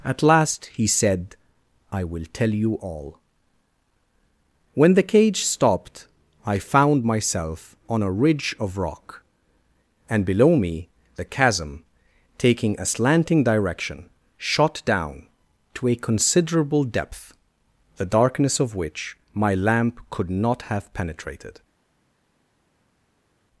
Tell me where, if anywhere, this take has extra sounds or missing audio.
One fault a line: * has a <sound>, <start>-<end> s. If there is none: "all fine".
all fine